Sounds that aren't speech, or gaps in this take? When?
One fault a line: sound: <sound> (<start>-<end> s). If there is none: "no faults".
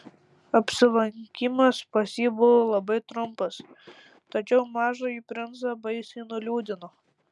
no faults